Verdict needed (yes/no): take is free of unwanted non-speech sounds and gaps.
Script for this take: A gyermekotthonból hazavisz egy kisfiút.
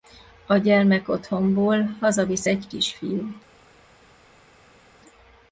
yes